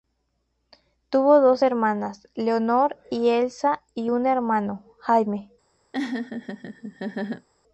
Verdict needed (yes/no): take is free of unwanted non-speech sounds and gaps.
no